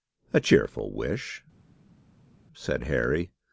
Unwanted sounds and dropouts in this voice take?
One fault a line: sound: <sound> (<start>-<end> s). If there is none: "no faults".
no faults